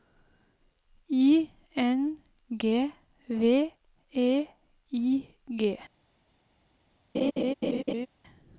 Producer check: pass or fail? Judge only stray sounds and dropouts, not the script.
fail